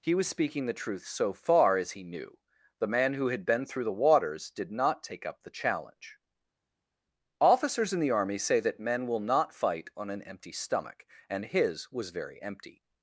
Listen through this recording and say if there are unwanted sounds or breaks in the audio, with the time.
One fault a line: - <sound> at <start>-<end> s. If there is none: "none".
none